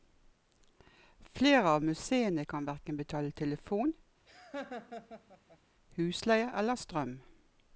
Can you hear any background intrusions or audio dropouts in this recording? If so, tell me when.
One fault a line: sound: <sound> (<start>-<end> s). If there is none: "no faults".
sound: laugh (4.3-5.6 s)